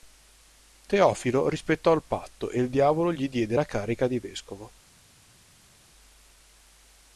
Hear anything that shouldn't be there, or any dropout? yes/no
no